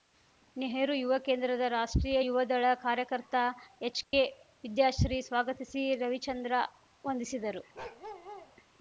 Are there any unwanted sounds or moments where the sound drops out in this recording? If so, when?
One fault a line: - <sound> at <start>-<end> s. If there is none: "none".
- dropout at 4.0-4.1 s
- bark at 7.7-8.5 s